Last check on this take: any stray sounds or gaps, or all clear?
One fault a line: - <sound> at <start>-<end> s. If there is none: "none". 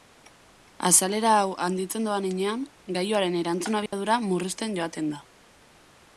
- dropout at 3.9-3.9 s